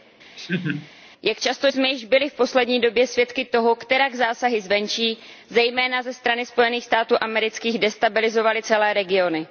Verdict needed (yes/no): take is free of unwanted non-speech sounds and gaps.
no